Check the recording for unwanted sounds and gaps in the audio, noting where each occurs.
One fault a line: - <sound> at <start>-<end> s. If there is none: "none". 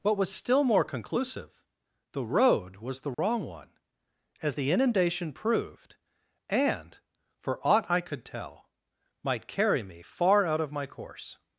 - dropout at 3.1-3.2 s